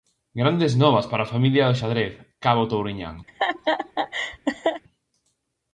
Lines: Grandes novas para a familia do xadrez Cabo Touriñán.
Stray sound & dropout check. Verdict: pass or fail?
fail